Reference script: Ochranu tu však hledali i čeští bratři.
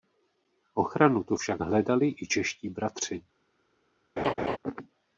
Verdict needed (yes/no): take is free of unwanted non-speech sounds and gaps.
no